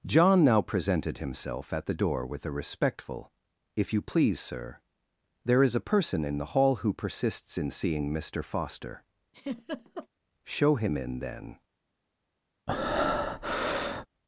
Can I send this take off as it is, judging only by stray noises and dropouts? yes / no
no